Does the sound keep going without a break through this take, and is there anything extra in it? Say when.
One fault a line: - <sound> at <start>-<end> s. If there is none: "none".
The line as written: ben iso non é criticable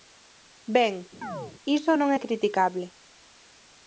- chirp at 1.2-1.6 s